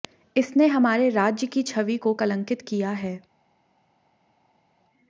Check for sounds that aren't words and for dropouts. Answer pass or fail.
pass